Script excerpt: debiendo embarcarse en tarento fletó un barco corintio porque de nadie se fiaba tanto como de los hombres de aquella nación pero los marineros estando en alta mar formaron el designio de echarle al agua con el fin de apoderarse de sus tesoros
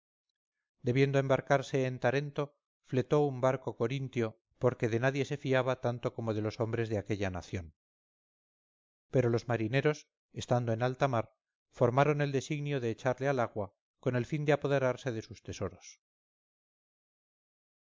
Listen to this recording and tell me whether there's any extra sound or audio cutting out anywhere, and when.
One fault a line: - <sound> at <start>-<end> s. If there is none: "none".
none